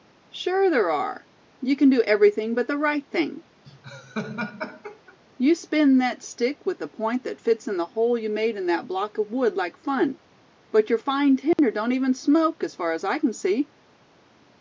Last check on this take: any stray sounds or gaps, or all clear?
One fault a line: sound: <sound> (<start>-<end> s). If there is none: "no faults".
sound: laugh (3.6-5.2 s)
sound: dropout (11.5-11.6 s)